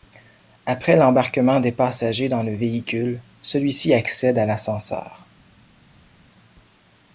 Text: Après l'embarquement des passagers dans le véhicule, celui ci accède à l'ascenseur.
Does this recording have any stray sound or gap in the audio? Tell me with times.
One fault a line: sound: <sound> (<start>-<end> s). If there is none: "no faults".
no faults